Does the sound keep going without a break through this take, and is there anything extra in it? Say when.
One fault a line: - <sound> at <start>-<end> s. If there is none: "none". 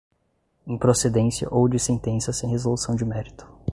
none